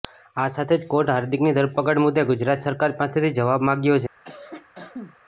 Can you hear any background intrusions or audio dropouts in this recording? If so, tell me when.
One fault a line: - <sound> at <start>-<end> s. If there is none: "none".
- cough at 4.2-5.2 s